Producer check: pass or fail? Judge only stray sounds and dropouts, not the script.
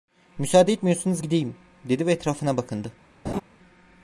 fail